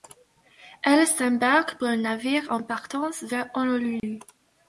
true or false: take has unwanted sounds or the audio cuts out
true